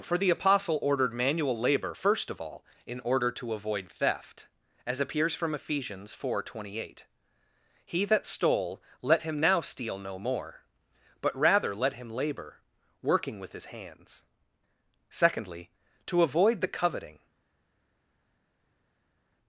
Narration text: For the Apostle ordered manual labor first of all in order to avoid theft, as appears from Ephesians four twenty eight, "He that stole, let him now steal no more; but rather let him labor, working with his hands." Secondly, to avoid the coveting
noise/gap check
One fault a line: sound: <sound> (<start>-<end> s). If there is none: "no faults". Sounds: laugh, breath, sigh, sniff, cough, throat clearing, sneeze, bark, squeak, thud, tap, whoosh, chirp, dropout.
no faults